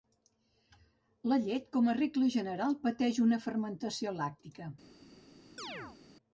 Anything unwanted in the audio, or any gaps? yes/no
yes